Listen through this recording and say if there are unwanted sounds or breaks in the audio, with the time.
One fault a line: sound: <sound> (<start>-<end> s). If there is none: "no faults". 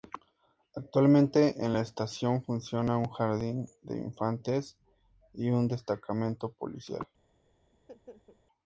sound: laugh (7.7-8.4 s)